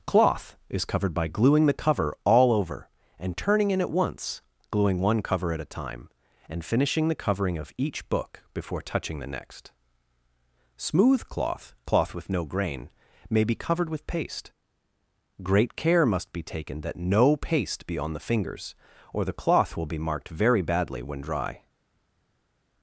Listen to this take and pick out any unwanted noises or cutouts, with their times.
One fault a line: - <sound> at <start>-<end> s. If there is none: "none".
none